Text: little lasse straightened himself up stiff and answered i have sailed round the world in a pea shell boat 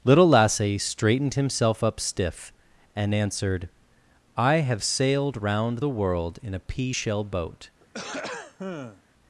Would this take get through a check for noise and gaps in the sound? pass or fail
fail